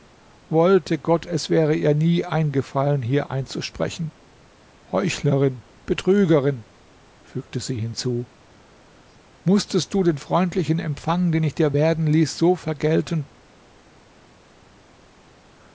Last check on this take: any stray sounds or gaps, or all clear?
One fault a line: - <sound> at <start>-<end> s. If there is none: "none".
none